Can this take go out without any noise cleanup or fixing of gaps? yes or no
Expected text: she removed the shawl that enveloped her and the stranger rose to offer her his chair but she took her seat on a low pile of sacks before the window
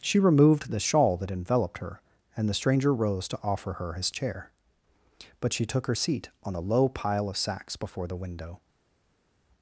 yes